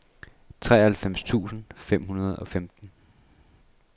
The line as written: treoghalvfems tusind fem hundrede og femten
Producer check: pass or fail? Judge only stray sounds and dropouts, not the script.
pass